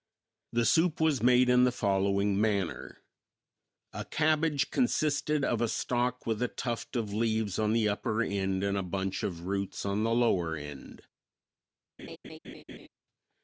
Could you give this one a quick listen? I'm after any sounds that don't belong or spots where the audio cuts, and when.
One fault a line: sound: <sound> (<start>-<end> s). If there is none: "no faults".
sound: laugh (12.0-12.9 s)